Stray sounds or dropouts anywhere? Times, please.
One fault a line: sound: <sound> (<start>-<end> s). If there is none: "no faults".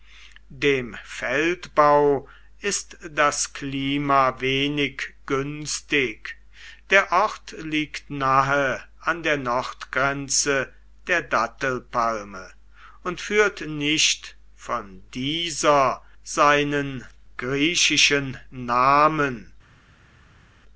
no faults